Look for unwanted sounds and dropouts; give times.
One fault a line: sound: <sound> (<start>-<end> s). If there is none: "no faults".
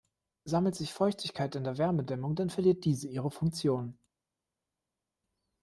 no faults